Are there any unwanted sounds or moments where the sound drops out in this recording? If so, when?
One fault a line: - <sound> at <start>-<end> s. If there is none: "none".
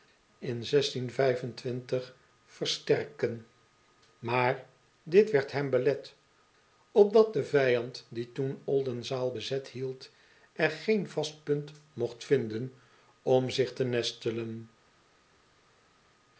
none